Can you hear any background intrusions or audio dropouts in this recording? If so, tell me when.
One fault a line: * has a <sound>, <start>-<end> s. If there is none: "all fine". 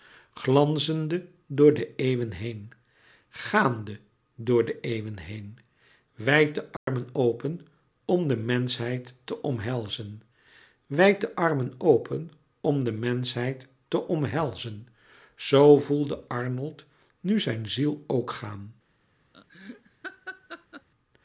* has a dropout, 6.8-6.9 s
* has a laugh, 19.3-20.9 s